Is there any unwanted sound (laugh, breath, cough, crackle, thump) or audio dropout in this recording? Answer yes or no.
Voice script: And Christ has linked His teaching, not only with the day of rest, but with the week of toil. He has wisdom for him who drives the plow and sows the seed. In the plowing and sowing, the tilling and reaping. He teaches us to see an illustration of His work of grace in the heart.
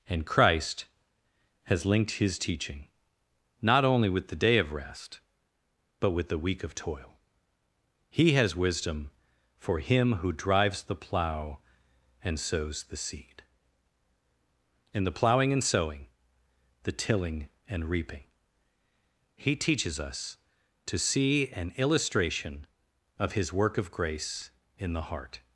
no